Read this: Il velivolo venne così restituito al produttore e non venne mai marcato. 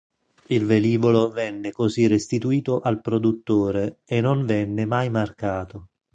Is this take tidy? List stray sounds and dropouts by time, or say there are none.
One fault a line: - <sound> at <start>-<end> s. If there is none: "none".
none